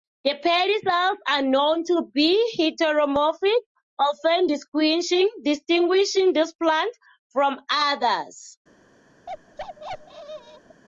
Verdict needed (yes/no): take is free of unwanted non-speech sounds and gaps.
no